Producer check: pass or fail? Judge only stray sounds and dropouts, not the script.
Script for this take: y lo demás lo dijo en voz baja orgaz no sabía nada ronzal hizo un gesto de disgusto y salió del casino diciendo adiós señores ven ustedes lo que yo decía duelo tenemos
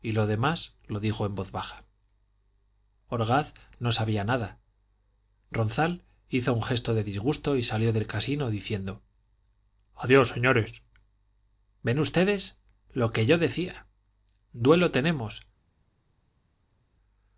pass